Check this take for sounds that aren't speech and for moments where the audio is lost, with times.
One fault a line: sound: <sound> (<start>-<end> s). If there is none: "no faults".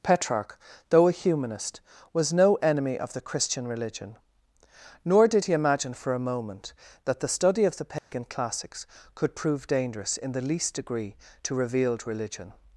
sound: dropout (8.0-8.1 s)